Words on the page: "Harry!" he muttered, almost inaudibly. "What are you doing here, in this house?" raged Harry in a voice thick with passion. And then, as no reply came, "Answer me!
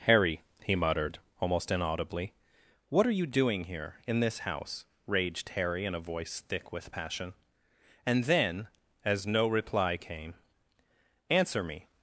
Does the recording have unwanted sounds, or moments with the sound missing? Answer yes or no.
no